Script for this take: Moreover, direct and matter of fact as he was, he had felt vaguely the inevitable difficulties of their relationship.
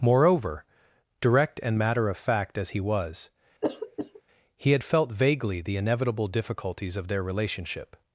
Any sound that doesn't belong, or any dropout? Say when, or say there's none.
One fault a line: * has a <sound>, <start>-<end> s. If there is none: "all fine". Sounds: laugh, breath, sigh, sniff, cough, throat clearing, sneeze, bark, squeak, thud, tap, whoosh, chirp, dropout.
* has a throat clearing, 3.6-4.2 s